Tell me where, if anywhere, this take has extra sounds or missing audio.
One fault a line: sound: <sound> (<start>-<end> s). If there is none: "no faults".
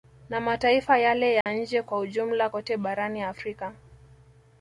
sound: dropout (1.4-1.5 s)